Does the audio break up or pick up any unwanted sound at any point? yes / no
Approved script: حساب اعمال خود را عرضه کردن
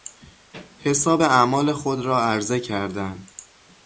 no